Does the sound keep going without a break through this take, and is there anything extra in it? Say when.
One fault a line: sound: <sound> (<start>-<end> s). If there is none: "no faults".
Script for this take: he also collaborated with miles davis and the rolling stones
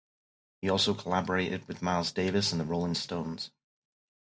no faults